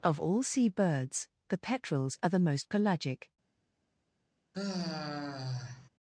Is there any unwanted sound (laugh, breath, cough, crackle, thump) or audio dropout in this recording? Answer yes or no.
yes